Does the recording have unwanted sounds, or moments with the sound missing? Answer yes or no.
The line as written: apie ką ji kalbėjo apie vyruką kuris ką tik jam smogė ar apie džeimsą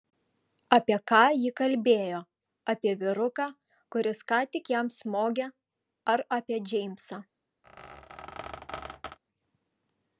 yes